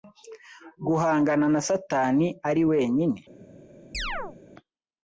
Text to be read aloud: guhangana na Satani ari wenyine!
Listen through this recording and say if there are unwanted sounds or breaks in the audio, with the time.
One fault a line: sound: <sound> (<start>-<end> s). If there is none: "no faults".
sound: chirp (3.9-4.4 s)